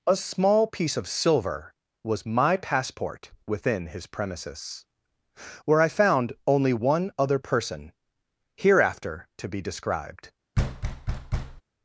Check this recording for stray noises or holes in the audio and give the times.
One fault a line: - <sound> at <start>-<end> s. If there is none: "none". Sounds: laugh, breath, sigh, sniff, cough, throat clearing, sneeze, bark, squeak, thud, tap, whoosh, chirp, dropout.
- thud at 10.5-11.6 s